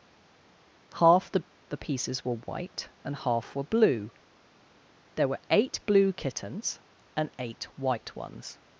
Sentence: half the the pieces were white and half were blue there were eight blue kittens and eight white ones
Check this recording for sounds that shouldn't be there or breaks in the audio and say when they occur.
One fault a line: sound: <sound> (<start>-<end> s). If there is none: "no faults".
no faults